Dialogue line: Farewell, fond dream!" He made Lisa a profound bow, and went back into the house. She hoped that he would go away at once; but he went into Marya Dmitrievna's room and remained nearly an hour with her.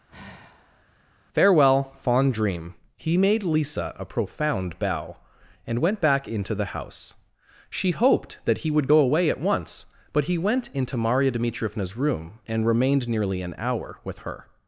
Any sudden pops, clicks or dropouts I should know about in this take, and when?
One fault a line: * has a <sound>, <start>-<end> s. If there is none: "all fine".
* has a sigh, 0.1-0.8 s